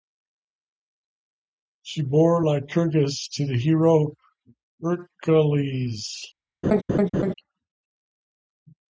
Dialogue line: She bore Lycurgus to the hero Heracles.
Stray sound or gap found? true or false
true